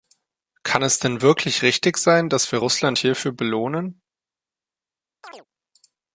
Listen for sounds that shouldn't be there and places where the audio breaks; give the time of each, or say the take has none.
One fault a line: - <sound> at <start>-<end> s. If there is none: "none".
- chirp at 5.2-5.5 s